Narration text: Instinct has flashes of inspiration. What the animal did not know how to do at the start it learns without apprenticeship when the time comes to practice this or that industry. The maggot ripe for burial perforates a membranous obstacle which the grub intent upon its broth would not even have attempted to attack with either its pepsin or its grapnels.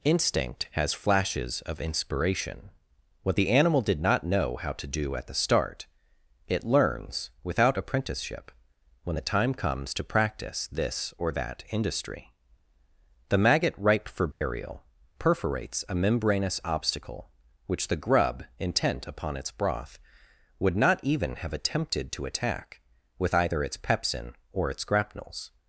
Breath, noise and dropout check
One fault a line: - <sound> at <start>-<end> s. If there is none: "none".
- dropout at 14.3-14.4 s